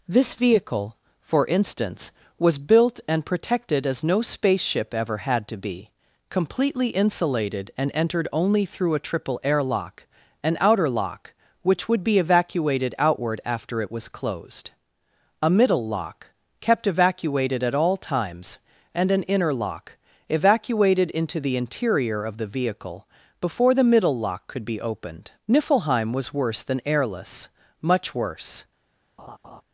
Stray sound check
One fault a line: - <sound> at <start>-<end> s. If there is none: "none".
- laugh at 29.2-29.6 s